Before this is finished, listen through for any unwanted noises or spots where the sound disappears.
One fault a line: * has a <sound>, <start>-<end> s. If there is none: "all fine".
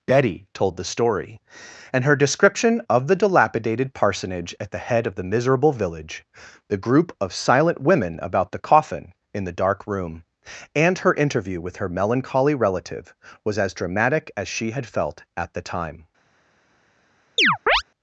* has a chirp, 17.4-17.8 s